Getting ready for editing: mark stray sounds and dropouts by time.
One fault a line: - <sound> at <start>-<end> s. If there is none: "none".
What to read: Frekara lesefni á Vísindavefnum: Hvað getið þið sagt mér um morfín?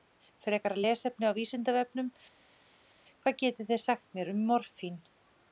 none